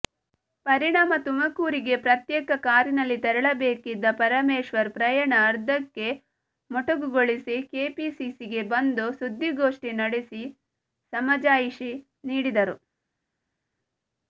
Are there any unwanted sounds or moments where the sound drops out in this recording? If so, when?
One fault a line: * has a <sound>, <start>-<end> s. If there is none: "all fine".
all fine